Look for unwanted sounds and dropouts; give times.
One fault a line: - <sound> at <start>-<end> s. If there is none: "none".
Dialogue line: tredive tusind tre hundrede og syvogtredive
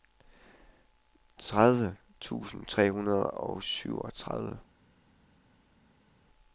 none